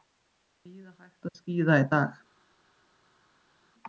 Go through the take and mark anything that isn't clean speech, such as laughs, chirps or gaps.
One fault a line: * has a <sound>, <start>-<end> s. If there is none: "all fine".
all fine